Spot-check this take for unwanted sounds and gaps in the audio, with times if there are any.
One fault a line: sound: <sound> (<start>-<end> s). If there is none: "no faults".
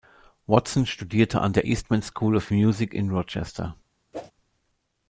sound: whoosh (4.1-4.3 s)